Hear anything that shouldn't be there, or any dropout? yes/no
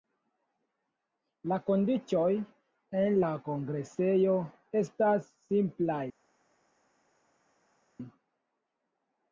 no